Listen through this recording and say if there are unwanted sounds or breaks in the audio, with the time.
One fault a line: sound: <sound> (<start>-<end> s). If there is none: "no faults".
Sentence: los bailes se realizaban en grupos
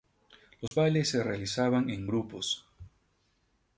sound: dropout (0.7-0.7 s)